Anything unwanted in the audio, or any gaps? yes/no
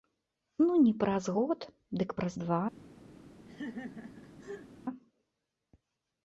yes